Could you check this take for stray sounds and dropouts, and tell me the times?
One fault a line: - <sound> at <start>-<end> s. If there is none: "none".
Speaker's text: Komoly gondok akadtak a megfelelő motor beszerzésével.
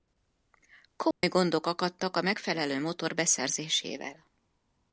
- dropout at 1.1-1.2 s